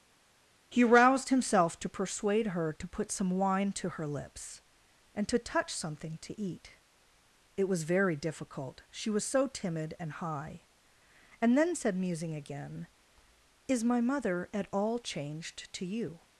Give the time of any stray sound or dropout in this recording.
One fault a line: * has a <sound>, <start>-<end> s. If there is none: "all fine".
all fine